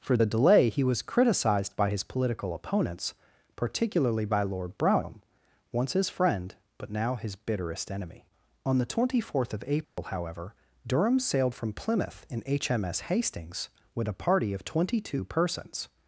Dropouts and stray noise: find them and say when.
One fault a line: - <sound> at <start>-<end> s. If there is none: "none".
- dropout at 9.8-10.0 s